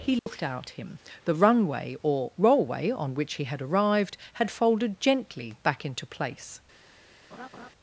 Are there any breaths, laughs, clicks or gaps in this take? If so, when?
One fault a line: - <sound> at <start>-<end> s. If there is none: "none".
- dropout at 0.2-0.3 s
- laugh at 7.3-7.7 s